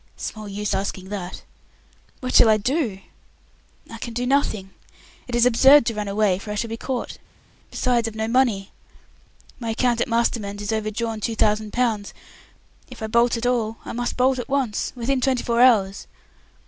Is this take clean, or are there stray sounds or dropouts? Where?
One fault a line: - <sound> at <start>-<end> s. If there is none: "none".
none